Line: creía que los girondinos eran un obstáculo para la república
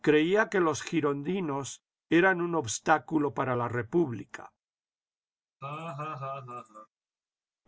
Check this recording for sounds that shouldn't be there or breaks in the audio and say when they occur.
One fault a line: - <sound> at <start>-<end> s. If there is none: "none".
- laugh at 5.6-6.9 s